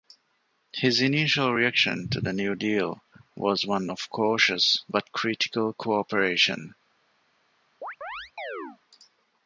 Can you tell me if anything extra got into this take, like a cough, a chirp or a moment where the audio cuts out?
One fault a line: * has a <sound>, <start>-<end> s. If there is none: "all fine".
* has a chirp, 7.8-8.8 s